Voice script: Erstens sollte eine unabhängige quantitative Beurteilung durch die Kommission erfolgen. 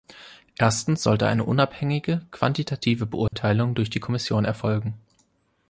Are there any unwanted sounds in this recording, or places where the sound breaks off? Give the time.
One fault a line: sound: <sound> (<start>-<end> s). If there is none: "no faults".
sound: dropout (3.3-3.3 s)